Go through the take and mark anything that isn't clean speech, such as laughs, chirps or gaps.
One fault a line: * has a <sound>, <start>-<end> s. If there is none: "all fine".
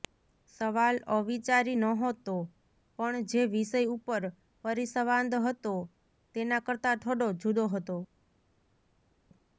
all fine